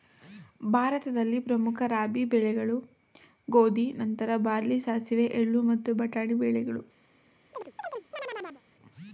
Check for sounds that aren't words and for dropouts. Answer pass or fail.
fail